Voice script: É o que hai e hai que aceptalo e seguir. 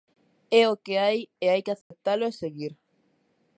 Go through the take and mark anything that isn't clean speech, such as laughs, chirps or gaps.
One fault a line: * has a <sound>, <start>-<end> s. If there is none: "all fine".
* has a dropout, 1.8-1.9 s